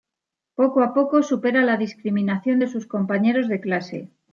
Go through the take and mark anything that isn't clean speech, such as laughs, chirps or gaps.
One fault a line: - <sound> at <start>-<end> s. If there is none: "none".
none